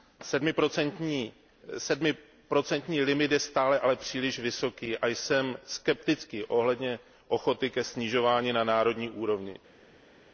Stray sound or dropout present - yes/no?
no